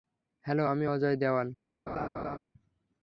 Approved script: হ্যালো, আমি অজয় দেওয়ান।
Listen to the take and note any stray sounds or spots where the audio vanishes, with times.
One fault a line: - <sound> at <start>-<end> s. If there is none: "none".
- laugh at 1.9-2.4 s